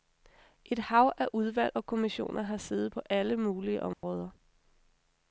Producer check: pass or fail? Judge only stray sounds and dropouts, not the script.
fail